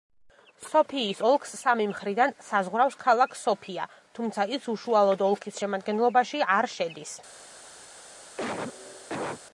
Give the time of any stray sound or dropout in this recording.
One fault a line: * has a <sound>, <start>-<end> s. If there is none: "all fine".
* has a cough, 8.4-9.4 s